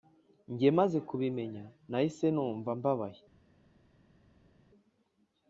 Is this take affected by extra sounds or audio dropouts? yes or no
no